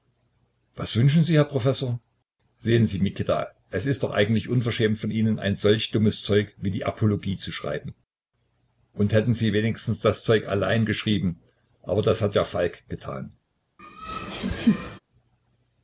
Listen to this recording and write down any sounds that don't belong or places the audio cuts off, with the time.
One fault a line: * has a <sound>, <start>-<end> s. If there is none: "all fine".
* has a laugh, 13.8-15.0 s